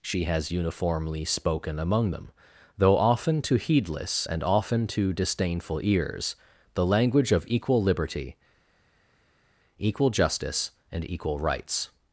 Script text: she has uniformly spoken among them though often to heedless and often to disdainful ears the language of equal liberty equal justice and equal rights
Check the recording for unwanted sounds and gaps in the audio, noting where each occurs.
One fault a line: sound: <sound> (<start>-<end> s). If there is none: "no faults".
no faults